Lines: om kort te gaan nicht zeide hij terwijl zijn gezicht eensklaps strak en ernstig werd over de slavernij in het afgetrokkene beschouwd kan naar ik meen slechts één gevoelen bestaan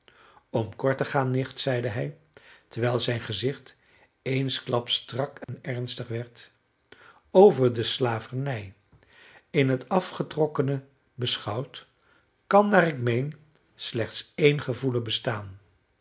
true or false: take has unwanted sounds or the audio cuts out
true